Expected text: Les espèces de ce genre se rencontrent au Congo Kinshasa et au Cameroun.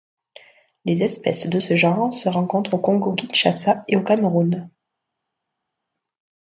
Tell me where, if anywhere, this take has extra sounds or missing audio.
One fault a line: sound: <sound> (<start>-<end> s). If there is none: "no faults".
no faults